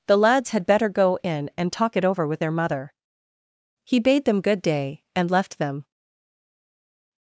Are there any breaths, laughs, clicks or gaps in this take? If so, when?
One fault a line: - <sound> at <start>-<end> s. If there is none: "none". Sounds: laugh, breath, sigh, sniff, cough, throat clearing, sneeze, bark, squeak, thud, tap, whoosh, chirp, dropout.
none